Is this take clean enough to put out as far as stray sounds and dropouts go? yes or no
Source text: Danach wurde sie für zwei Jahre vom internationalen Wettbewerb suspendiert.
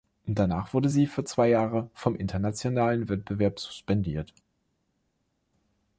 yes